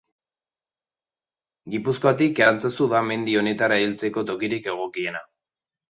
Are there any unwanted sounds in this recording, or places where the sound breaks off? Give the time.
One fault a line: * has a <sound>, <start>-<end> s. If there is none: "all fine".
all fine